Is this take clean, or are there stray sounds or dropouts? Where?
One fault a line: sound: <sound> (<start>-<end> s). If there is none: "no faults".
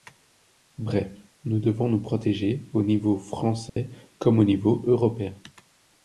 sound: dropout (3.7-3.8 s)